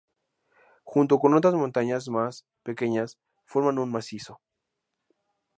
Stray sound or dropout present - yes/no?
no